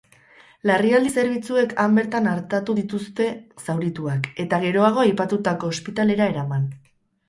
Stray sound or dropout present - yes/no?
no